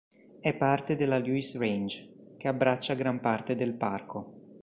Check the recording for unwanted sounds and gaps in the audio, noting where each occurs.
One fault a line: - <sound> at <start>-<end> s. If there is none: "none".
none